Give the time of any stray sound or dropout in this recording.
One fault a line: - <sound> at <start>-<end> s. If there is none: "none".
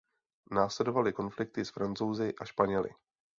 none